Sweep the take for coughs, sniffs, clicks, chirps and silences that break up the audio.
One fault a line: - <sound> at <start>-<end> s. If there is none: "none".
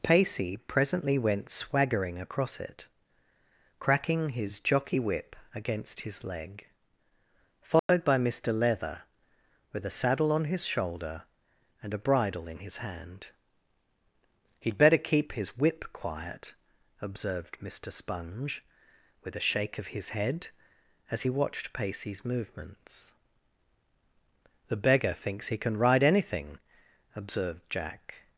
- dropout at 7.8-7.9 s